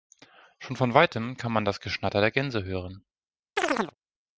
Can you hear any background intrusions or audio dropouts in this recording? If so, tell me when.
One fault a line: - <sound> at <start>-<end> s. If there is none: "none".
- chirp at 3.6-3.9 s